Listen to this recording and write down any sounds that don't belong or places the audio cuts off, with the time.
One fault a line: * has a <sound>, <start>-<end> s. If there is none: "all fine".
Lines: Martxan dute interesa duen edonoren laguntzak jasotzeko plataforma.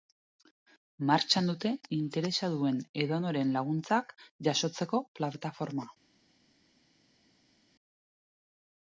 all fine